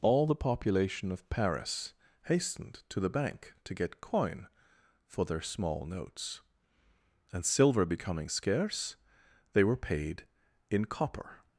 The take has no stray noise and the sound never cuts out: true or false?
true